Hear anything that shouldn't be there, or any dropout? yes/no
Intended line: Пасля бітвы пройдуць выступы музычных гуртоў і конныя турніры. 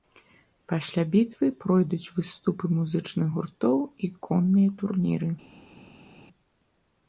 no